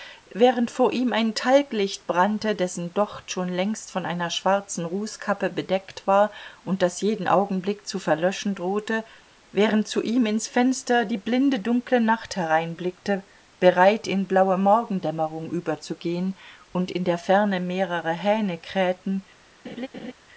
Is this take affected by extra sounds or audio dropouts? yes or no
yes